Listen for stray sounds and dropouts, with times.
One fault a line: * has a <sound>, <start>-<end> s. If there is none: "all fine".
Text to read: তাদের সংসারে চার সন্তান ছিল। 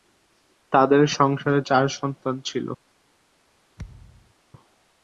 * has a thud, 3.8-4.3 s